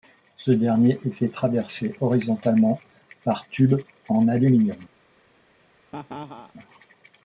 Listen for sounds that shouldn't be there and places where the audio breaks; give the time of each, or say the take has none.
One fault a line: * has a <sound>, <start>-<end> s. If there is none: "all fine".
* has a laugh, 5.9-6.5 s